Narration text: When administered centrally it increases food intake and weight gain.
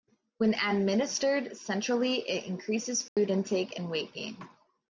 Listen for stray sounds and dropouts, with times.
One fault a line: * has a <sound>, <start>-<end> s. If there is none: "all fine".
* has a dropout, 3.1-3.2 s